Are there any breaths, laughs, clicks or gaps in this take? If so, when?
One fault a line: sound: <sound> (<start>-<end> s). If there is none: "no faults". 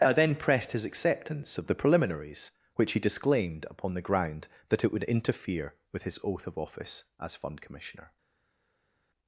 no faults